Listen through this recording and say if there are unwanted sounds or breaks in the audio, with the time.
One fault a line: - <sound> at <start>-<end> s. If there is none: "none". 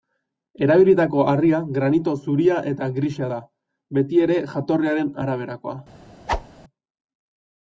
- whoosh at 6.3-6.5 s